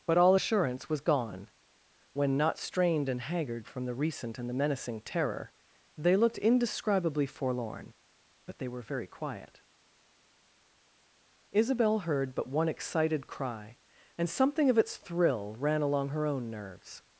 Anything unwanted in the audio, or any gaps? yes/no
no